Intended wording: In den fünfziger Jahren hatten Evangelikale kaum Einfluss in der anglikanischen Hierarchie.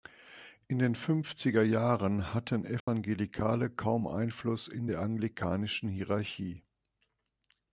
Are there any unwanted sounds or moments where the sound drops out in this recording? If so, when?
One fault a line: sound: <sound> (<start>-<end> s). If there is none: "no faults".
sound: dropout (2.8-2.9 s)